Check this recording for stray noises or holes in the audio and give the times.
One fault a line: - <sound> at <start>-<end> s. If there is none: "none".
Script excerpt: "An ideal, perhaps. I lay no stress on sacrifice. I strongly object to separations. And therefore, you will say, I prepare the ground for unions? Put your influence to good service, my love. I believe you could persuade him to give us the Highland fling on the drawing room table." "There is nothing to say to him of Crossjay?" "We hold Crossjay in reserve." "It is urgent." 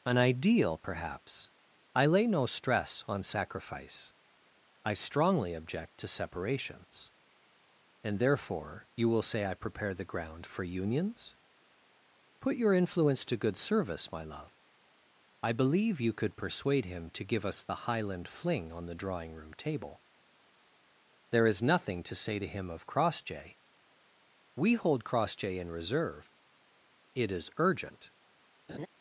- laugh at 28.7-28.9 s